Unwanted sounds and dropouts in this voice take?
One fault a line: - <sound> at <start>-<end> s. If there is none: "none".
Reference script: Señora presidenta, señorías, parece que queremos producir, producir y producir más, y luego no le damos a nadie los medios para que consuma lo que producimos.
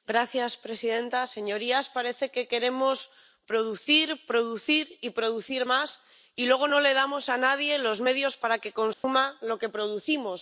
- dropout at 8.9-9.0 s